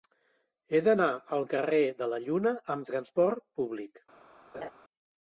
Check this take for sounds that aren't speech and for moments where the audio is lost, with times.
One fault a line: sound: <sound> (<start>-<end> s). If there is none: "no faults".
sound: laugh (4.5-4.7 s)